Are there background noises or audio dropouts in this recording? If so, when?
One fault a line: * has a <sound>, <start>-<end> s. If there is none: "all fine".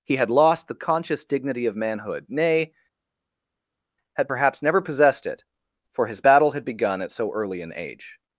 all fine